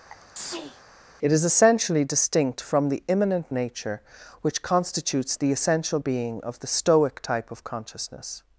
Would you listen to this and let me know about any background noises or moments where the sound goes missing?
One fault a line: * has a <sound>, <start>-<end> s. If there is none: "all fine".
* has a sneeze, 0.1-0.8 s